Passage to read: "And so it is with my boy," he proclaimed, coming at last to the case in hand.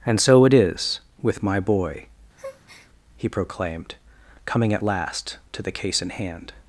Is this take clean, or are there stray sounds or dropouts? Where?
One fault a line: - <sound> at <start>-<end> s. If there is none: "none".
- breath at 2.4-2.9 s